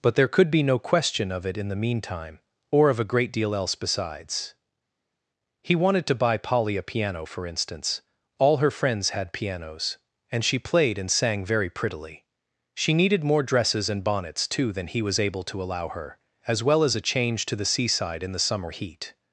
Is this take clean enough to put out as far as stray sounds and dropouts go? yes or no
yes